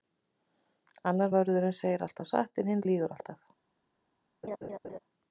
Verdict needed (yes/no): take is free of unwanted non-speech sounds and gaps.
no